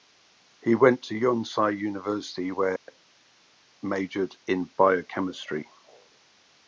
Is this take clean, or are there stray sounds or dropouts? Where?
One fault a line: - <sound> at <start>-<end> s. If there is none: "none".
- dropout at 2.8-2.9 s